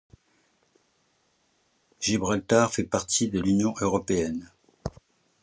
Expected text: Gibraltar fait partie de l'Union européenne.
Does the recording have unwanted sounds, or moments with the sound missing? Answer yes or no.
no